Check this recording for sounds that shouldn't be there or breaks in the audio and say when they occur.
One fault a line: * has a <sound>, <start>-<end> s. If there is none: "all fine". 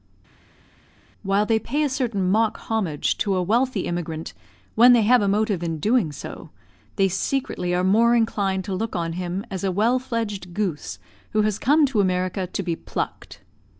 all fine